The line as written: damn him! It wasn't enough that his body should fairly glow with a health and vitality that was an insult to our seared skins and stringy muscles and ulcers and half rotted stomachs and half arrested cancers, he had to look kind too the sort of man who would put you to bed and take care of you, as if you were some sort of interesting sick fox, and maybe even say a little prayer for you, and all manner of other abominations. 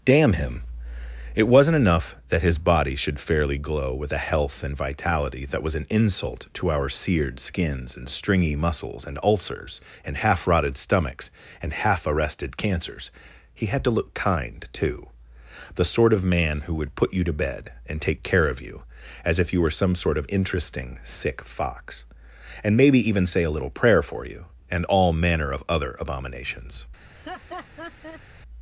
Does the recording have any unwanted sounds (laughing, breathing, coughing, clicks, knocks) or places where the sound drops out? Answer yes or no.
yes